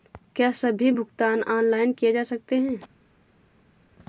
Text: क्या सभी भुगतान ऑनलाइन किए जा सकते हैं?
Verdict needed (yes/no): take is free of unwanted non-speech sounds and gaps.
yes